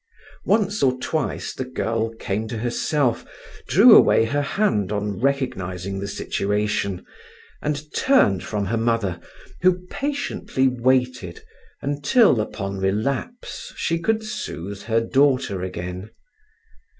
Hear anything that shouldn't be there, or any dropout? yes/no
no